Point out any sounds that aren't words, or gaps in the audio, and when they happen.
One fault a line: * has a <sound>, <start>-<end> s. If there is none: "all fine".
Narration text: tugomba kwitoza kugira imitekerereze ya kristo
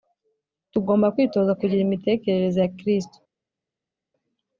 all fine